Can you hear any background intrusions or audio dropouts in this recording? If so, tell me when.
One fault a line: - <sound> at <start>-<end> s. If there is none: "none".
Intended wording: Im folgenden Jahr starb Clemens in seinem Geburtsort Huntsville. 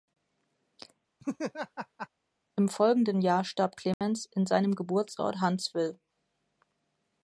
- laugh at 1.2-2.1 s
- dropout at 3.9-4.0 s